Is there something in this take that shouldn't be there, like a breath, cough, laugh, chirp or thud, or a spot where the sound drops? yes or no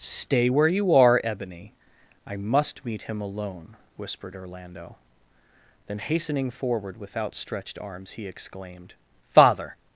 no